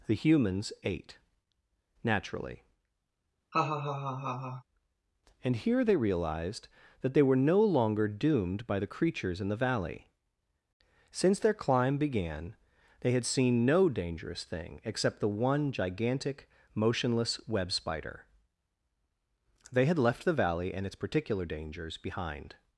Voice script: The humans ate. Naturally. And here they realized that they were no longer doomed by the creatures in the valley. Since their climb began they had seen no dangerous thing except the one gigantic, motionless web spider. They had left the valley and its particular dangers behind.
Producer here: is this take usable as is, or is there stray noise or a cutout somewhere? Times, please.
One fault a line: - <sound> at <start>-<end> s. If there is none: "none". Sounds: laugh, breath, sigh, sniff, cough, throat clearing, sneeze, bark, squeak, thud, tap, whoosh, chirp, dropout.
- laugh at 3.5-4.6 s